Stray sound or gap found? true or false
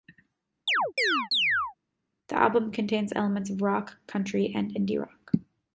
true